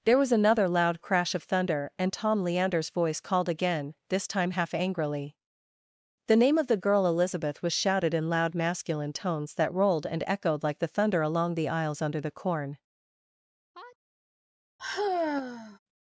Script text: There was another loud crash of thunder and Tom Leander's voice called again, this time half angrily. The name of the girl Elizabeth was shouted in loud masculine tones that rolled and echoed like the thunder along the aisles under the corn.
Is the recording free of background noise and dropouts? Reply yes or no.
no